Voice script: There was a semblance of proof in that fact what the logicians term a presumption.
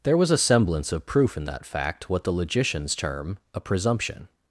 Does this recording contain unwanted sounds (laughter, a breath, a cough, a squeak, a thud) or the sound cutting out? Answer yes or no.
no